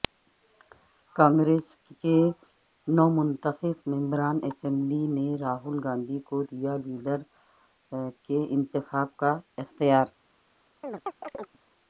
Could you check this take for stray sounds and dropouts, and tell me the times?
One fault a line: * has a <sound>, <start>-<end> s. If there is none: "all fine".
* has a chirp, 10.8-11.6 s